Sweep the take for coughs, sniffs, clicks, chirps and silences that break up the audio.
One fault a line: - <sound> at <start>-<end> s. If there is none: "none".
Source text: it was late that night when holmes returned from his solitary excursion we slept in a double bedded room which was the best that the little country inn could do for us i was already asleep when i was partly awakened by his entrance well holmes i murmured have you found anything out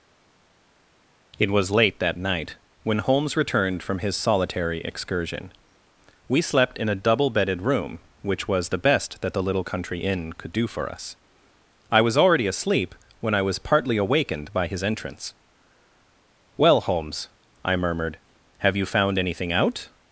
none